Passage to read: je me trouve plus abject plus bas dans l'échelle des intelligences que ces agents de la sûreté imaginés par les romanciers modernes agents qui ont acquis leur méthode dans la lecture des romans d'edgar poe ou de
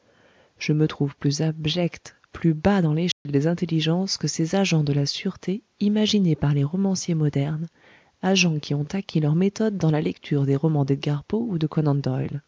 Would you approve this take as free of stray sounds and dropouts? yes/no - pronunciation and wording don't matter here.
no